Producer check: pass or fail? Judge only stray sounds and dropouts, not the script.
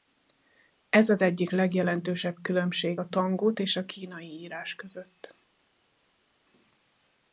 pass